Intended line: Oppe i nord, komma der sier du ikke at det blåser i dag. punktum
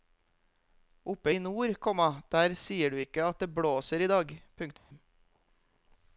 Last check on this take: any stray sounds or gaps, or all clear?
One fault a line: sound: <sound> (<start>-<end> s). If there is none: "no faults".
sound: dropout (4.8-4.9 s)